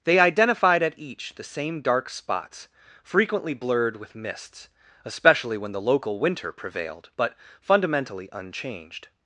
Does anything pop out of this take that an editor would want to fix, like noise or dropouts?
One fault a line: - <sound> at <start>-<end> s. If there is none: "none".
none